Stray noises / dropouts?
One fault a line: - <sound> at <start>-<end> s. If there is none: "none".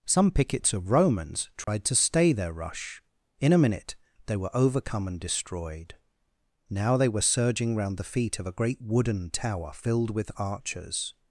- dropout at 1.6-1.7 s